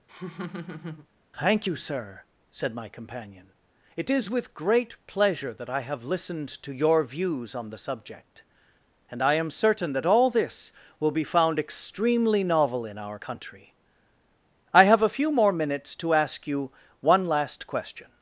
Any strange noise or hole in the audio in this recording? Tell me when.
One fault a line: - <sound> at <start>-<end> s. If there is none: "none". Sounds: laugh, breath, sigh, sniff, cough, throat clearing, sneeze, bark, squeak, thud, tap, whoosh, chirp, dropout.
- laugh at 0.1-1.1 s